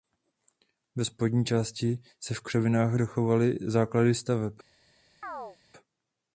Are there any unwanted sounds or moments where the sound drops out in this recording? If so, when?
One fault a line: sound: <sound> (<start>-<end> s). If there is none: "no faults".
sound: chirp (5.2-5.6 s)